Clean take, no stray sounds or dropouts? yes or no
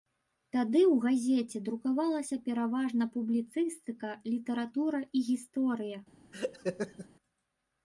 no